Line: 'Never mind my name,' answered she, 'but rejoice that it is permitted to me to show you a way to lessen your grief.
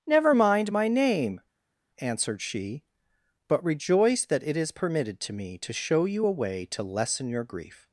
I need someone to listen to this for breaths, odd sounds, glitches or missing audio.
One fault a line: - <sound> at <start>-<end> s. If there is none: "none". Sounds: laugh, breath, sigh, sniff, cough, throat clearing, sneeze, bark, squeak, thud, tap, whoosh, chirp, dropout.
none